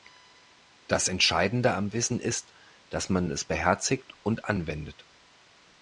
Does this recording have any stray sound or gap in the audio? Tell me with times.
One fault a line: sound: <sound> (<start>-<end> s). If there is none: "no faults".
no faults